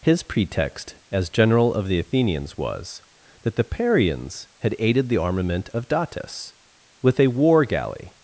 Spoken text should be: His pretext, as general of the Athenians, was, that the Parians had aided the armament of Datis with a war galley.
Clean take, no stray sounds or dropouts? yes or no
yes